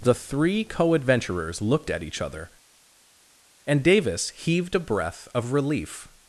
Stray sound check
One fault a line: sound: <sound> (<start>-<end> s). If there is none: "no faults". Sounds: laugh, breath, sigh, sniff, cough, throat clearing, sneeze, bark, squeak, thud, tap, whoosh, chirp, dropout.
no faults